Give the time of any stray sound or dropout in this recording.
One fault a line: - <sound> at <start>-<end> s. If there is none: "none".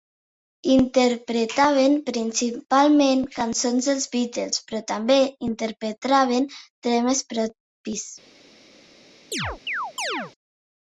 - chirp at 9.3-10.3 s